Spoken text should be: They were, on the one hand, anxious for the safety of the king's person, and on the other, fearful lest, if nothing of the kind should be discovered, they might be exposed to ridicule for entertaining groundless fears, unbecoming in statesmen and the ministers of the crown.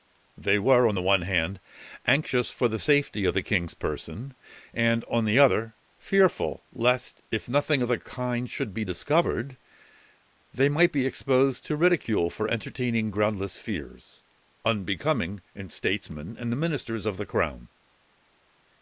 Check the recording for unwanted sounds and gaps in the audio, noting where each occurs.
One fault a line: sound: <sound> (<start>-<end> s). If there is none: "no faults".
no faults